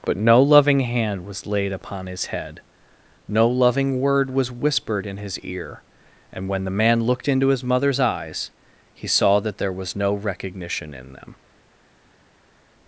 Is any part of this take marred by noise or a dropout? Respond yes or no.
no